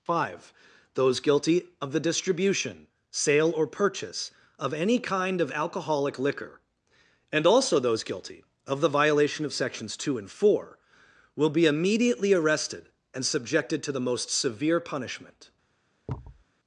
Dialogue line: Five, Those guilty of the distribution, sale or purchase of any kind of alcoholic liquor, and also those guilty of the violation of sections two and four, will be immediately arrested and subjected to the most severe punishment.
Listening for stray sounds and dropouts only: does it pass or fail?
fail